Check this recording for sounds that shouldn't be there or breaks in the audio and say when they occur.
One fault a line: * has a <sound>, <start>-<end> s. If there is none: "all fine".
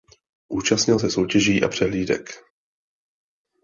all fine